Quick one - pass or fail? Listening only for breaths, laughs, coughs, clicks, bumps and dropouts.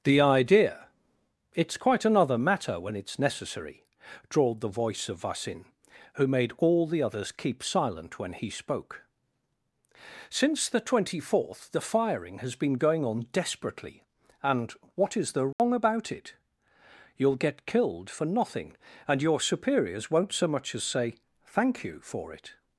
fail